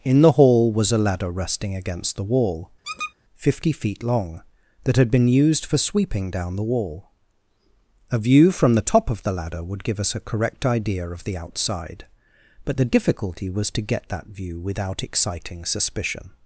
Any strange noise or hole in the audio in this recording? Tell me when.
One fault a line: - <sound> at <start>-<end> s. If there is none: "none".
- squeak at 2.8-3.1 s